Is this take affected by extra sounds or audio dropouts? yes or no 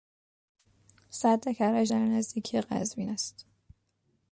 no